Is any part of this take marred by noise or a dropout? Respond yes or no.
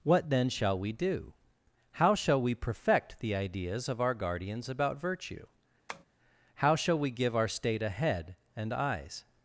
yes